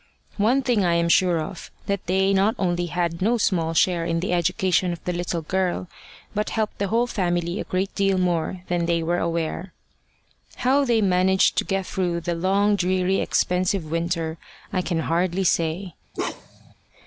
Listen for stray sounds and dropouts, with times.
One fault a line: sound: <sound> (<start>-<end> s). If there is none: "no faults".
sound: bark (16.1-16.7 s)